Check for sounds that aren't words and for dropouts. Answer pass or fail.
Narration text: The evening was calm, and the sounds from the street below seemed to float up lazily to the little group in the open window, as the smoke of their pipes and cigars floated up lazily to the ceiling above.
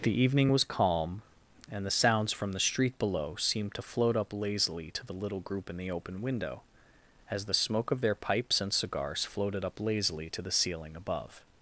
pass